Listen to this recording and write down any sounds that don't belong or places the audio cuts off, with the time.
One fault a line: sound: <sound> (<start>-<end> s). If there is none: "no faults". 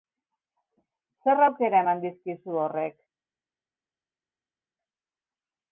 no faults